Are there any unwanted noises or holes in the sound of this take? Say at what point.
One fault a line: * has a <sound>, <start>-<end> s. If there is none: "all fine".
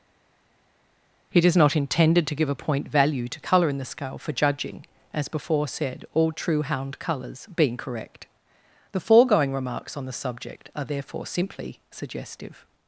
all fine